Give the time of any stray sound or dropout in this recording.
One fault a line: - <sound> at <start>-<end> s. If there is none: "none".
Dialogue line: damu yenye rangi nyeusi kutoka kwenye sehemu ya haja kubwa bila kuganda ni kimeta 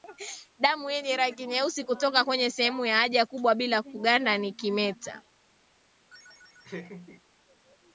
- laugh at 6.1-7.2 s